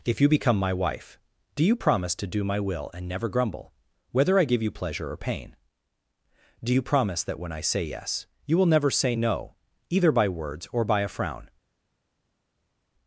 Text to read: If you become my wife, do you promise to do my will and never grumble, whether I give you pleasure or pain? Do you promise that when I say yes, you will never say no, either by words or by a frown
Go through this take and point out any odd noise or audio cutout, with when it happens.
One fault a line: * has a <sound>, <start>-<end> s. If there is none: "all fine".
all fine